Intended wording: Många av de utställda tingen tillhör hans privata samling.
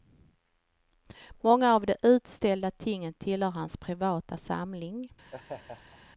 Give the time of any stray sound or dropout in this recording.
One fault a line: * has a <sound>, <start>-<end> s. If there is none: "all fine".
* has a laugh, 5.3-6.0 s